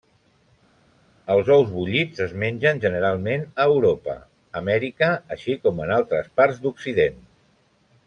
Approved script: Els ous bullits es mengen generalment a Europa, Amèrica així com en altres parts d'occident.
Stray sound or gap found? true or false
false